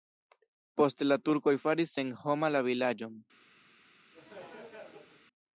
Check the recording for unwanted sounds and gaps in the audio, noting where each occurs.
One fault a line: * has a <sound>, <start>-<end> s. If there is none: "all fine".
* has a laugh, 4.1-5.3 s